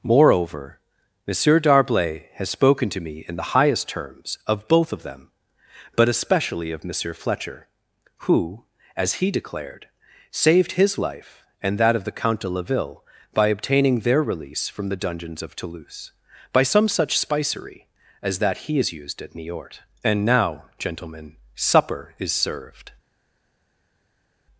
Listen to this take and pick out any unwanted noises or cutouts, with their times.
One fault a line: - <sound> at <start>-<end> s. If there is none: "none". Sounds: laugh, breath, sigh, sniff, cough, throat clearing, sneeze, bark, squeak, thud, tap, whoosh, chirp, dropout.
none